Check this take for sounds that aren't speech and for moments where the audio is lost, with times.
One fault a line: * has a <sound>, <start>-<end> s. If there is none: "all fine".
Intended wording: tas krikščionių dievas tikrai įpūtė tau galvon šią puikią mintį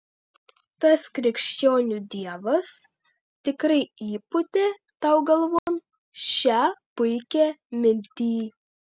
* has a dropout, 5.6-5.7 s